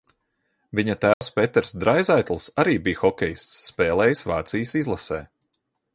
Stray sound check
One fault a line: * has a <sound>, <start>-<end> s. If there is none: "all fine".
* has a dropout, 1.1-1.2 s